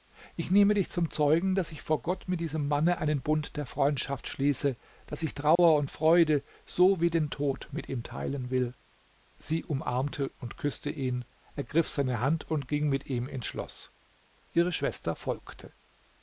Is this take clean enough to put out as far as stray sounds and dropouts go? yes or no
no